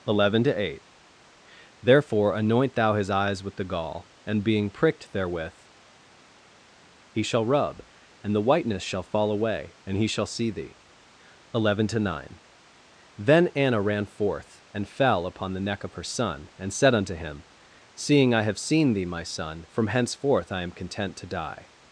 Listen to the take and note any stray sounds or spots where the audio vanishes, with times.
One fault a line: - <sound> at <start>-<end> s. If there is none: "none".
none